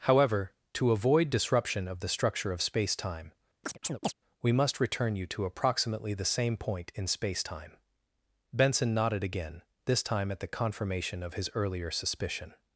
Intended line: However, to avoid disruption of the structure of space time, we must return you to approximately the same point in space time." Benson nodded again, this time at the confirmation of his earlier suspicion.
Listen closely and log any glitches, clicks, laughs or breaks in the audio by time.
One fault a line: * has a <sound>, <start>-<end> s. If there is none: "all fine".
* has a chirp, 3.6-4.1 s